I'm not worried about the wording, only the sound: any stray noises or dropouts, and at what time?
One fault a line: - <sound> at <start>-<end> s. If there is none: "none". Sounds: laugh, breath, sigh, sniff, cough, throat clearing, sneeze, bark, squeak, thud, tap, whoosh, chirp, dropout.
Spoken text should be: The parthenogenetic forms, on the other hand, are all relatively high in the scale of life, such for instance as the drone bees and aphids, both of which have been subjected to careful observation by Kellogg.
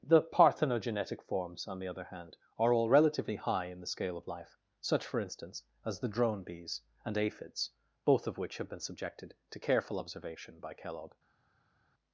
none